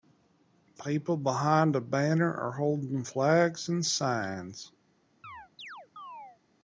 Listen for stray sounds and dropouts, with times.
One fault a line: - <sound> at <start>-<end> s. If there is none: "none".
- chirp at 5.2-6.4 s